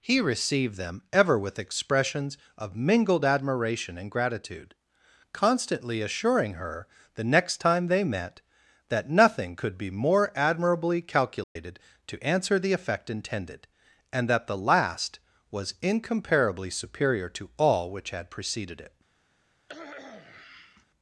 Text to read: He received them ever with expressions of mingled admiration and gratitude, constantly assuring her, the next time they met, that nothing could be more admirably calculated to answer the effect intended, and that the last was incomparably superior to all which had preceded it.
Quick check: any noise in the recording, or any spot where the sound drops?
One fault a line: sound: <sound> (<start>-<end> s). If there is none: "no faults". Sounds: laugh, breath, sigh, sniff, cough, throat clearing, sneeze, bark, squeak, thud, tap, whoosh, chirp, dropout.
sound: dropout (11.4-11.6 s)
sound: cough (19.7-20.9 s)